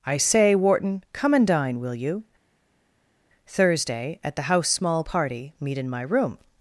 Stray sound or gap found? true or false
false